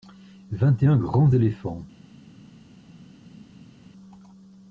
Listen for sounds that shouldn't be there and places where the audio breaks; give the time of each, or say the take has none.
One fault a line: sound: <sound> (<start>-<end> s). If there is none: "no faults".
no faults